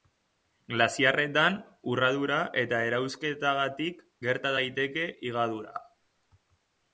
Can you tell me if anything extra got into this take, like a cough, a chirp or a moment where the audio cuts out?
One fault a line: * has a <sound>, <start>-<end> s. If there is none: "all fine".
all fine